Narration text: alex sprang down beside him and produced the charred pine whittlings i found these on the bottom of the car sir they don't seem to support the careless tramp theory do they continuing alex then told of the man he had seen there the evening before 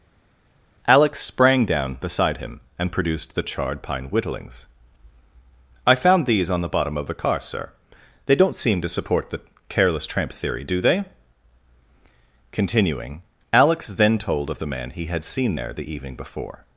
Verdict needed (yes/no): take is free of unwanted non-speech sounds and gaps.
yes